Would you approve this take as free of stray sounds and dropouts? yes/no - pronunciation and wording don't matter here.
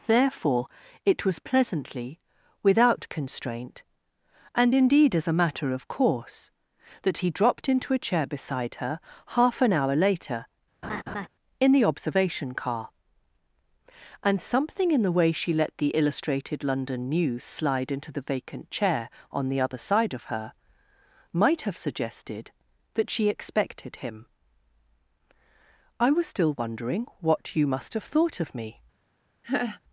no